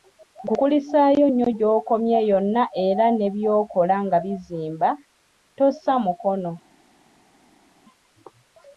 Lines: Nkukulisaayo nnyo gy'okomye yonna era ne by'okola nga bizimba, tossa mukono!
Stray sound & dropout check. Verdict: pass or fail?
pass